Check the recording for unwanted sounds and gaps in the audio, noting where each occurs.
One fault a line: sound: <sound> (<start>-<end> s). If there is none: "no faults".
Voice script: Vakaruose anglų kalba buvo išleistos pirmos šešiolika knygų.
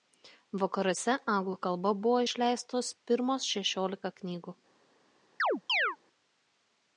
sound: chirp (5.4-6.0 s)